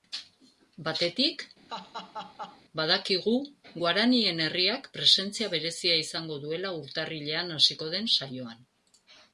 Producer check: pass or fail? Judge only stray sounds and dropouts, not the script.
fail